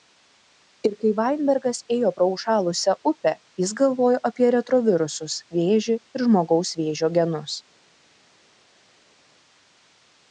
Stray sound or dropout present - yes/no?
no